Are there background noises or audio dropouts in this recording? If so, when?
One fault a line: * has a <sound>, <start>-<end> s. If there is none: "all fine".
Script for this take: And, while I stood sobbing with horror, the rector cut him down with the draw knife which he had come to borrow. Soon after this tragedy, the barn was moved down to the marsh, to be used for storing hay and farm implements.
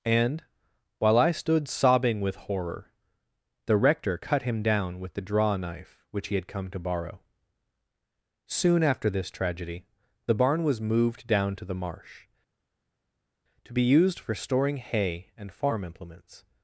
all fine